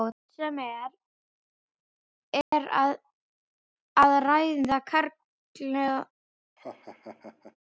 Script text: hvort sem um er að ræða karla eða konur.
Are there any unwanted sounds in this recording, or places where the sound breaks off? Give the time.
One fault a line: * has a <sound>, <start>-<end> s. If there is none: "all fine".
* has a dropout, 2.4-2.5 s
* has a laugh, 6.6-7.6 s